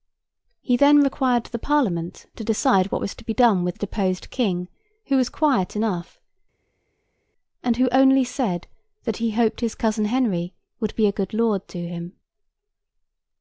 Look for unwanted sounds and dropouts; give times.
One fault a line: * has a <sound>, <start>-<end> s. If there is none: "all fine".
all fine